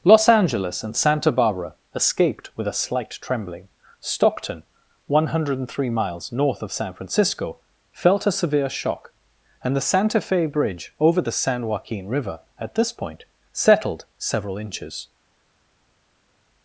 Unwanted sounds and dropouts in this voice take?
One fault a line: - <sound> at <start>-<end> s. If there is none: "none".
none